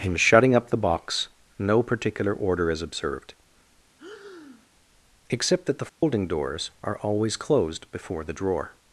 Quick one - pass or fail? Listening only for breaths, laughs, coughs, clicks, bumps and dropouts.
fail